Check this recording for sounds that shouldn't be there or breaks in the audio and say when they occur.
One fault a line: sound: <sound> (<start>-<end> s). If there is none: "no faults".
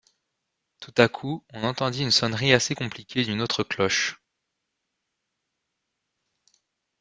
no faults